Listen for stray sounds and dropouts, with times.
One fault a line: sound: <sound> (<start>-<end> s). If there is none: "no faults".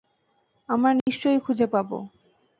sound: dropout (1.0-1.1 s)